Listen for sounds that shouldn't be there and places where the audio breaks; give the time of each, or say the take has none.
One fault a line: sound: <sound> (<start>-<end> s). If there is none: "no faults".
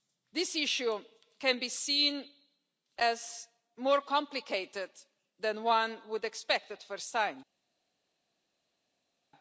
no faults